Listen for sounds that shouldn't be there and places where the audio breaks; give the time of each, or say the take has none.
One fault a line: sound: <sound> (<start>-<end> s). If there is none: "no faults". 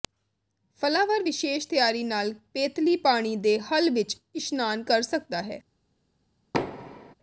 sound: thud (6.5-7.1 s)